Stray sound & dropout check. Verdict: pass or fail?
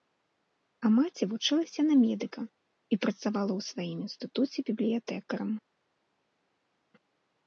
pass